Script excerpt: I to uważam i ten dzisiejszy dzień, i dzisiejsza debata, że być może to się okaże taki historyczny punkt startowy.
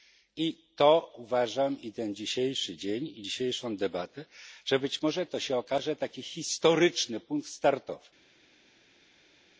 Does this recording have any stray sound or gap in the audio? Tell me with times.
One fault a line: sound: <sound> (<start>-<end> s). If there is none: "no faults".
no faults